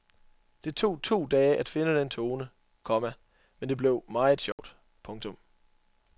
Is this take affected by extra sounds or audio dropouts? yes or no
yes